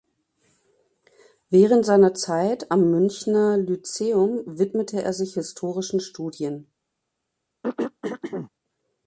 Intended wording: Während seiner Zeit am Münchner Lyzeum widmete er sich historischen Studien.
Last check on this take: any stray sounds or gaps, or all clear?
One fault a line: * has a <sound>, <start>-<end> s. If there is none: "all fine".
* has a throat clearing, 7.6-8.5 s